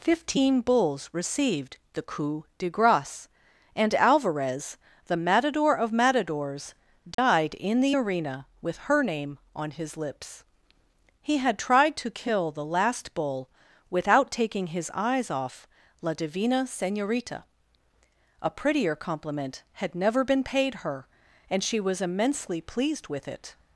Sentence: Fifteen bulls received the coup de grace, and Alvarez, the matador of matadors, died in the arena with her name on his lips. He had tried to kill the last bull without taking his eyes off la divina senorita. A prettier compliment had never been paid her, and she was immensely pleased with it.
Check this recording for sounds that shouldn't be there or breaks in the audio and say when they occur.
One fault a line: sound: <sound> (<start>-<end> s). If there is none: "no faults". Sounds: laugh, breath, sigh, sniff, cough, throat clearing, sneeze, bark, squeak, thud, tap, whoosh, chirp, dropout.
sound: dropout (7.1-7.2 s)